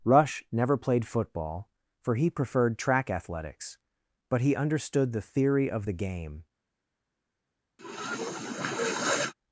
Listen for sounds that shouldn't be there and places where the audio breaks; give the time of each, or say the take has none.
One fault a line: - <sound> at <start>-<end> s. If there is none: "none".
- sniff at 7.8-9.3 s